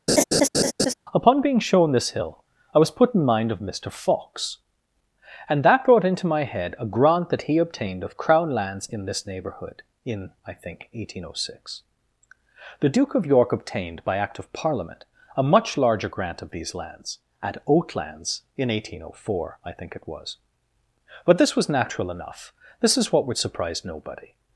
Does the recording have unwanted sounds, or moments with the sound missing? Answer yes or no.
yes